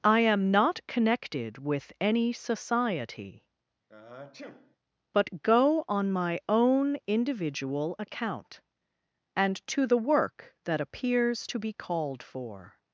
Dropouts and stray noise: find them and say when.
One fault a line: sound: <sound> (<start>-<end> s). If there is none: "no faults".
sound: sniff (3.9-4.8 s)